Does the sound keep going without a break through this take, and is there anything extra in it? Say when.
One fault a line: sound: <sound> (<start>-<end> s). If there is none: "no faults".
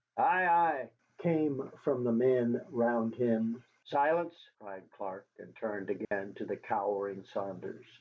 sound: dropout (6.0-6.1 s)